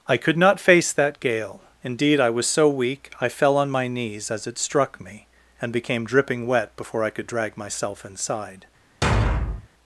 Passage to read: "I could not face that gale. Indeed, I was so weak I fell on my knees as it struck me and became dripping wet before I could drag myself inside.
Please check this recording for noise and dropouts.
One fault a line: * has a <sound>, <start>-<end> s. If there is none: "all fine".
* has a thud, 9.0-9.7 s